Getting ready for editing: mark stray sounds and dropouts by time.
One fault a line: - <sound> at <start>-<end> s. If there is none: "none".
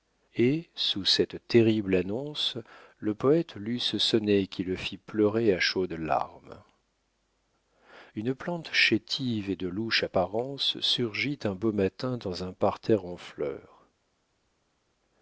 none